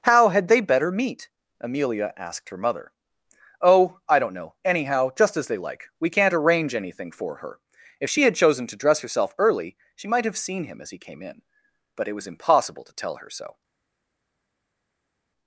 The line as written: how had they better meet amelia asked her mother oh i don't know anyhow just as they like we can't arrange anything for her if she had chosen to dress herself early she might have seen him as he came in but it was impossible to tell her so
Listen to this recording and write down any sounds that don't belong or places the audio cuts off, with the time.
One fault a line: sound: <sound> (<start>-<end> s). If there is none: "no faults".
no faults